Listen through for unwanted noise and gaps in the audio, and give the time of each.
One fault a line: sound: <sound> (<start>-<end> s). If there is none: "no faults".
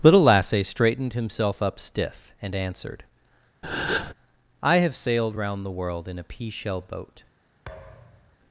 sound: breath (3.6-4.1 s)
sound: thud (7.7-8.4 s)